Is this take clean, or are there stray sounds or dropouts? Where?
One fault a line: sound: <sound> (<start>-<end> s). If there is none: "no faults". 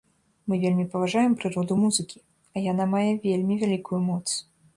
no faults